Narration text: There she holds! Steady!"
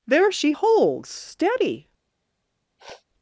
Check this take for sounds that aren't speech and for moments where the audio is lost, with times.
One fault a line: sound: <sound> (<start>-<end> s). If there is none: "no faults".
sound: sniff (2.8-3.1 s)